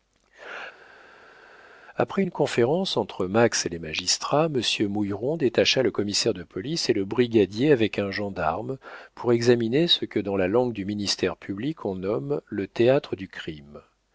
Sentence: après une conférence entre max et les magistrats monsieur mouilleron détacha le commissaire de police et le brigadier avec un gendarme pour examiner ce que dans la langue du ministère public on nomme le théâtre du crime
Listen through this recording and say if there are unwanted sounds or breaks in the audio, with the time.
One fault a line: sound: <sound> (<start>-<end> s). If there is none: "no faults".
no faults